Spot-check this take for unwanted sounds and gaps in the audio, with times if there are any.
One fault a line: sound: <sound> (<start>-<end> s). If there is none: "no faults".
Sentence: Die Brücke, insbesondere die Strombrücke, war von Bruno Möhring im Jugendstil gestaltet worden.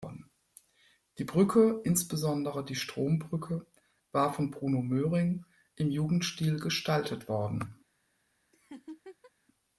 sound: laugh (8.5-9.3 s)